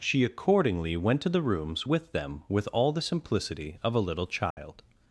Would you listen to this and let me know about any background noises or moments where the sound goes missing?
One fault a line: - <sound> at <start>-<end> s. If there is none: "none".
- dropout at 4.5-4.6 s